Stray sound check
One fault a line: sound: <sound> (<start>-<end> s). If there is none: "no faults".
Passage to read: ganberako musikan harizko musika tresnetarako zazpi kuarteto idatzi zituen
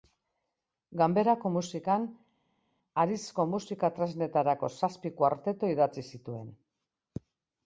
no faults